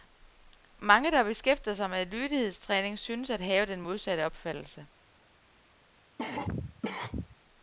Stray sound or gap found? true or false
true